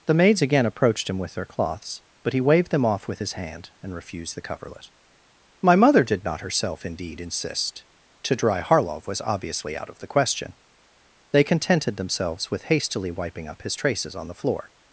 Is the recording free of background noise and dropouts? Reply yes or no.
yes